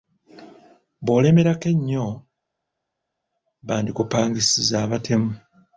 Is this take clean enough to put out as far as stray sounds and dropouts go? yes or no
yes